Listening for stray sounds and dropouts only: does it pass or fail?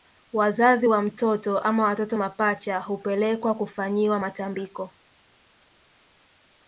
pass